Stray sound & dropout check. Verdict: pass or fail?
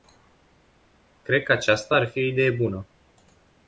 pass